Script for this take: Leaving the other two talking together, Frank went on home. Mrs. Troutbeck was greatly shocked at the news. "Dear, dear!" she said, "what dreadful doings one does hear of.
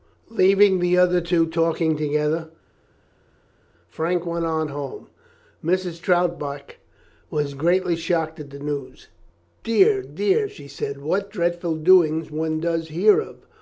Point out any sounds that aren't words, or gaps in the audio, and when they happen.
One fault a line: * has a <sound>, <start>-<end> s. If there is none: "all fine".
all fine